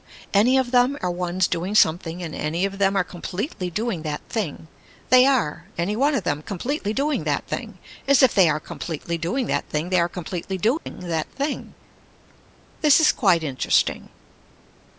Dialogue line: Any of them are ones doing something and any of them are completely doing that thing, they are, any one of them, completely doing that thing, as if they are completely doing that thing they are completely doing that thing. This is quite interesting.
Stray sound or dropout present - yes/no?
yes